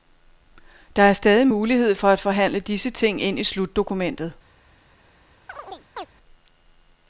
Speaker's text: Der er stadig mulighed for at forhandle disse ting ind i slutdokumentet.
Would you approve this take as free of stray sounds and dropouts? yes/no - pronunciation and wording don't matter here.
no